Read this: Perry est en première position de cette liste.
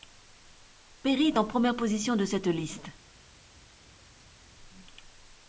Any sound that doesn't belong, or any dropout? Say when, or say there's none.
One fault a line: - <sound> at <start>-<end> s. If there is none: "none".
none